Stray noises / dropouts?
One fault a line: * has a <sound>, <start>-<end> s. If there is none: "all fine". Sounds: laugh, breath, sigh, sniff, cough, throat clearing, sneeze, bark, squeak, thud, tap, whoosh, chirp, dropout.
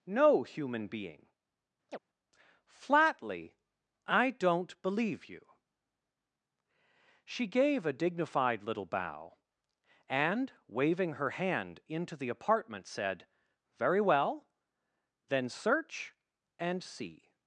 * has a chirp, 1.9-2.0 s